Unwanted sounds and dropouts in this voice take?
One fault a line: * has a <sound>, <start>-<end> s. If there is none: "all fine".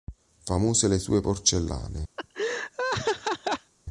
* has a laugh, 2.2-3.7 s